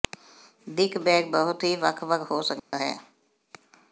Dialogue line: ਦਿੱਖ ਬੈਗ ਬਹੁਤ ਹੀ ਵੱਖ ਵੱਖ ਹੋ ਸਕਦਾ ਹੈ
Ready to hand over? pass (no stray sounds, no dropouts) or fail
fail